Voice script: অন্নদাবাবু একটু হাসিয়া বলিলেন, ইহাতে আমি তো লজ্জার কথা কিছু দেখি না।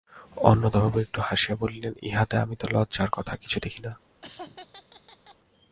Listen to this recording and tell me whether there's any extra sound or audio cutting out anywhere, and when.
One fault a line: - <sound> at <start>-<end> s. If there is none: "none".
- laugh at 4.2-5.4 s